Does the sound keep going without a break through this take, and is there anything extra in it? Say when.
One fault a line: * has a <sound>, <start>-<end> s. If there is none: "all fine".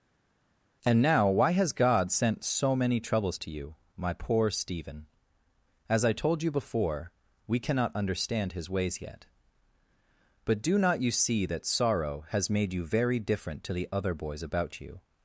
all fine